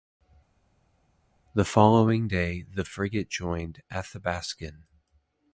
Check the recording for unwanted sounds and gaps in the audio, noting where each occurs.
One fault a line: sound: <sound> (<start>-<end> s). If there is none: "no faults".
no faults